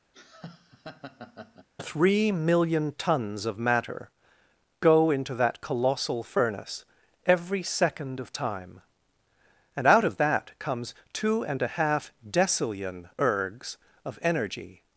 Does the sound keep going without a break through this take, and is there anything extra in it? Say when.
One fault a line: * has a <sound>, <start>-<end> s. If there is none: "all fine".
* has a laugh, 0.1-1.7 s